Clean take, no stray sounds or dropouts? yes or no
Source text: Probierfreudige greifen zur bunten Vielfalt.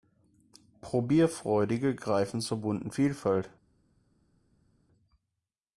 yes